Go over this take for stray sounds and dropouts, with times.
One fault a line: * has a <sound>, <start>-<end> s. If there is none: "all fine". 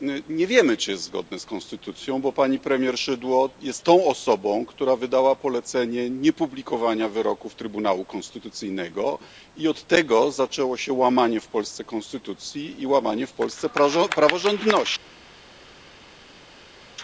all fine